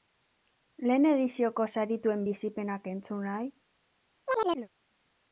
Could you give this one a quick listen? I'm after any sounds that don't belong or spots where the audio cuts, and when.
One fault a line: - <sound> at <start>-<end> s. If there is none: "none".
- chirp at 4.3-4.7 s